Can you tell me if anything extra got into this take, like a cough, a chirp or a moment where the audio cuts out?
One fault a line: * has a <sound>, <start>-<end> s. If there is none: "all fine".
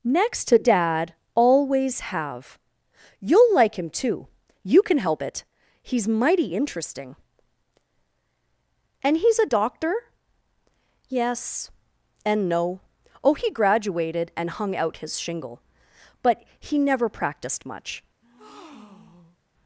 * has a breath, 18.2-19.4 s